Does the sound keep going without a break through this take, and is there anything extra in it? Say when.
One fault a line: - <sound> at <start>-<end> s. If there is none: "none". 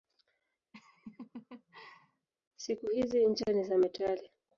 - laugh at 0.7-2.3 s